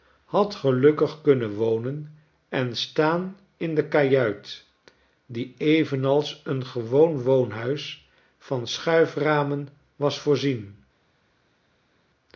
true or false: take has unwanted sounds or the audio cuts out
false